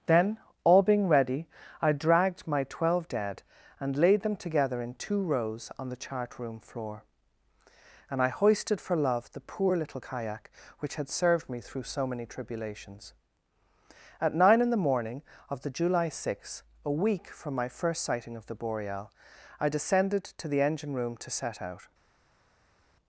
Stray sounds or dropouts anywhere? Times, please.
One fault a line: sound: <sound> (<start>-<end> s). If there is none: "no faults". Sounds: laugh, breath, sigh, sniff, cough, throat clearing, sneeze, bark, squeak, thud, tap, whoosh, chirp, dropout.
no faults